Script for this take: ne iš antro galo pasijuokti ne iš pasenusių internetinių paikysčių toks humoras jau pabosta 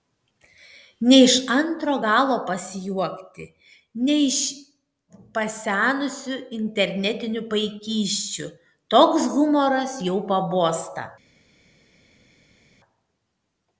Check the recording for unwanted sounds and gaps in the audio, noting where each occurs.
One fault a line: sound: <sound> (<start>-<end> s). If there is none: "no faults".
no faults